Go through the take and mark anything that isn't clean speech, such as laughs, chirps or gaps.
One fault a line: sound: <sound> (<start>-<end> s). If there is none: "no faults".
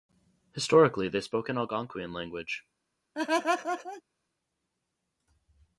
sound: laugh (3.1-4.0 s)